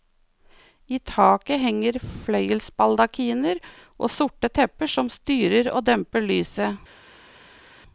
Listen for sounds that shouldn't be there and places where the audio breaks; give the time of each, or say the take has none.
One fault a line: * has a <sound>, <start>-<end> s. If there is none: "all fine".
all fine